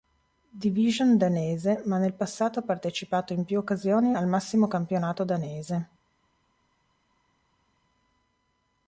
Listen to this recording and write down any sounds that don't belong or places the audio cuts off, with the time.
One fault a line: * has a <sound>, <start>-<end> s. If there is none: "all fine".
all fine